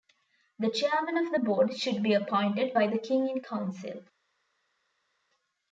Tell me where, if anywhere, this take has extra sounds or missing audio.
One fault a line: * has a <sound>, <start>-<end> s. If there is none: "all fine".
all fine